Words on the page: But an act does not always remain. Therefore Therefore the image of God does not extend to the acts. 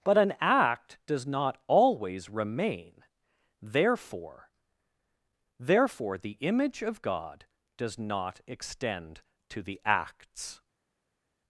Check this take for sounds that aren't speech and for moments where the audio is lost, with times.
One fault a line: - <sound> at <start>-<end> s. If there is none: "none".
none